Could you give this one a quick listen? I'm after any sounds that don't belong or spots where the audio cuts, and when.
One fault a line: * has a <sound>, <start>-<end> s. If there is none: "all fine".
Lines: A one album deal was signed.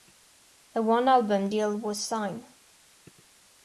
all fine